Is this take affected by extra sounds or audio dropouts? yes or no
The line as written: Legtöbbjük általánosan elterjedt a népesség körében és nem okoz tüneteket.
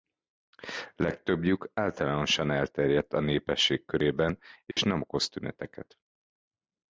yes